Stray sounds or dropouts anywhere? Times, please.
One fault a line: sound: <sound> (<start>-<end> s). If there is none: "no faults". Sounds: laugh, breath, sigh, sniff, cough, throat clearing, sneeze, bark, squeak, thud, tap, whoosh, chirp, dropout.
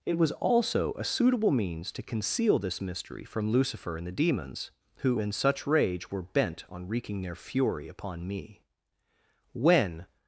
no faults